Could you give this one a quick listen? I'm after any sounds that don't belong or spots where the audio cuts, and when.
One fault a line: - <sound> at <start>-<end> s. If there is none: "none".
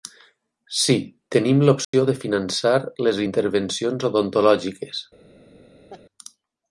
- dropout at 1.8-1.9 s
- laugh at 5.9-6.0 s